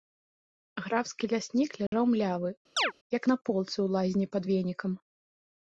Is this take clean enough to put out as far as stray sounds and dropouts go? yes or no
no